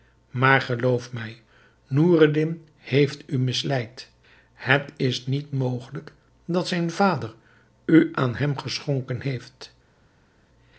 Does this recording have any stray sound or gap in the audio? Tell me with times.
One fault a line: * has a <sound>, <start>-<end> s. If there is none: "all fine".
all fine